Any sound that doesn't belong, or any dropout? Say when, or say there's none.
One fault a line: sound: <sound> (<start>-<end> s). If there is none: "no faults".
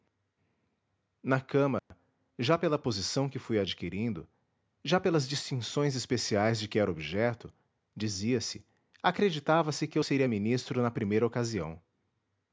sound: dropout (1.8-1.9 s)